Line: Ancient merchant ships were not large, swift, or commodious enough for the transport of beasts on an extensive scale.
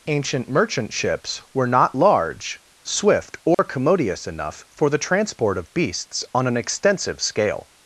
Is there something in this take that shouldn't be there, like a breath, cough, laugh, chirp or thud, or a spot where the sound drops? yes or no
yes